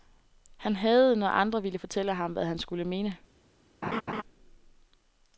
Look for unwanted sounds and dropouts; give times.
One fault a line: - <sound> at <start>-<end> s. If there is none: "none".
- laugh at 3.8-4.2 s